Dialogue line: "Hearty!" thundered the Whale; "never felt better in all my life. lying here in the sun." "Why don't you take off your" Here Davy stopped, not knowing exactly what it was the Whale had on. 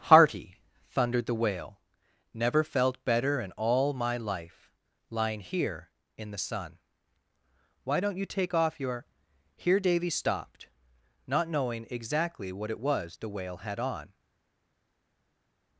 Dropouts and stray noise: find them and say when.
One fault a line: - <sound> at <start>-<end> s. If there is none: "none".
none